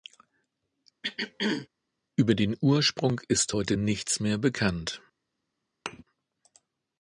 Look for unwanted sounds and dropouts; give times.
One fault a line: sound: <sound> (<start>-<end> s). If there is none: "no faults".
sound: throat clearing (1.0-1.7 s)
sound: thud (5.9-6.0 s)